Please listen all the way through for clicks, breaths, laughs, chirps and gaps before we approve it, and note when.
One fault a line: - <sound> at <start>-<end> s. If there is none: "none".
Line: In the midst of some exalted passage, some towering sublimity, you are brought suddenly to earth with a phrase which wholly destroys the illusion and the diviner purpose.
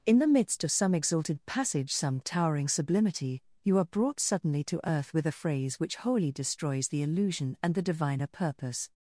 none